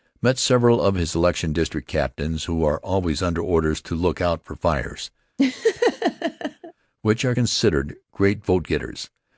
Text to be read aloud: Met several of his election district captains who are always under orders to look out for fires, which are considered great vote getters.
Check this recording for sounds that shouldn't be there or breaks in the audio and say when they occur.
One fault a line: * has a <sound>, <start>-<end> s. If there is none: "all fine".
* has a laugh, 5.4-6.7 s